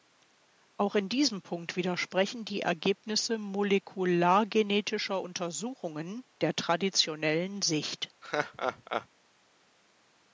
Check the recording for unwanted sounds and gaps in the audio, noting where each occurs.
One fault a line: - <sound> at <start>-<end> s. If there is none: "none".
- laugh at 8.2-9.1 s